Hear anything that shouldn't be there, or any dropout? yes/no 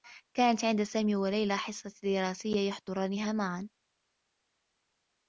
no